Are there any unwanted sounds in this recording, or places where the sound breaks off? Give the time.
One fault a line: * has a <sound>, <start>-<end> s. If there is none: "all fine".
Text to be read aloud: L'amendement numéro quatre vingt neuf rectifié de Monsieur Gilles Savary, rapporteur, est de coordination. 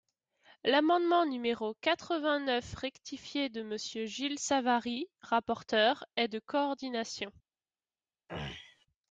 * has a throat clearing, 8.3-8.9 s